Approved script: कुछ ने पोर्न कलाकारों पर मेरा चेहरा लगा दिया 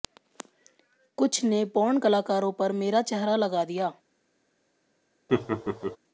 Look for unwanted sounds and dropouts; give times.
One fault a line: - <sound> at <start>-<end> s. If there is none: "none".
- laugh at 5.3-6.0 s